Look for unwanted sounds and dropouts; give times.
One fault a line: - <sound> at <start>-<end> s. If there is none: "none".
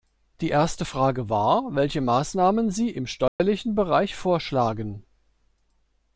- dropout at 3.3-3.4 s